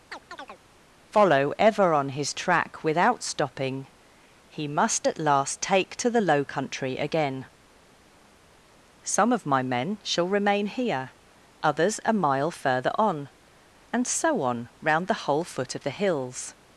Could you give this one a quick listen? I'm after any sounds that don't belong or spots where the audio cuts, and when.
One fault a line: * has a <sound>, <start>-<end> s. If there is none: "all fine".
* has a chirp, 0.1-0.6 s